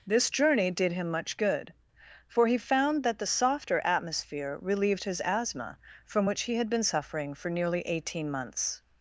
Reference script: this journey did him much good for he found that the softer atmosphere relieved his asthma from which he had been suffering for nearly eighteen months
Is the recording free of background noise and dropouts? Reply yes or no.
yes